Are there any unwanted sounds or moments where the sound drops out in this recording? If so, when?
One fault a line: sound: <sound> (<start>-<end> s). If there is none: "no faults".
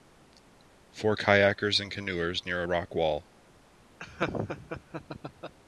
sound: laugh (4.0-5.5 s)